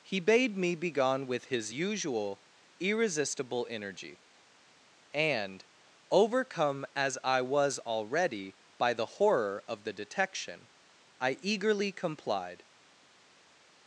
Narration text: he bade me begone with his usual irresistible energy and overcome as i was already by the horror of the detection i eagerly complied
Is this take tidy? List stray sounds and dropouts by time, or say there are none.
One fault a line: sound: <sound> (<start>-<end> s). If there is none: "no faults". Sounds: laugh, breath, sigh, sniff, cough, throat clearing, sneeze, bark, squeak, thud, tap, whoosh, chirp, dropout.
no faults